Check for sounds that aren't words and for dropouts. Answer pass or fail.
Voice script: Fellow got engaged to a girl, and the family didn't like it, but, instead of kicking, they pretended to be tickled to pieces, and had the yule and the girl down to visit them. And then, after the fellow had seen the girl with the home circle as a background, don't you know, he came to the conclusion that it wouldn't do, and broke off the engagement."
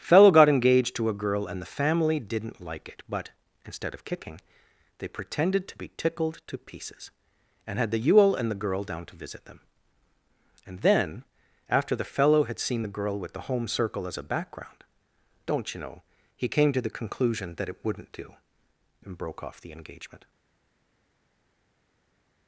pass